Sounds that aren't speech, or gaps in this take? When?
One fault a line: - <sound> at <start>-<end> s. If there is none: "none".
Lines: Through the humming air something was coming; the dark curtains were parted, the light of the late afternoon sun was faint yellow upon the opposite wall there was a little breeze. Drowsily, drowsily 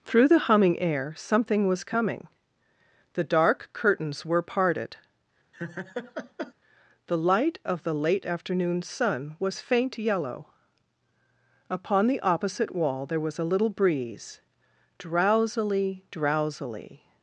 - laugh at 5.5-6.5 s